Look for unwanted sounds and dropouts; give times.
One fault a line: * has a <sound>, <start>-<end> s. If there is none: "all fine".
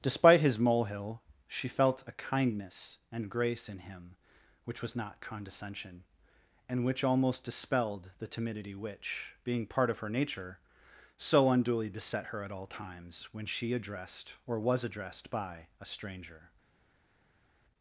all fine